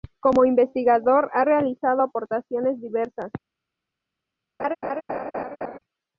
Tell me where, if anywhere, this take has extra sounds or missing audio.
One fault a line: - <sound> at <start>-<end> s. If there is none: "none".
- laugh at 4.6-5.8 s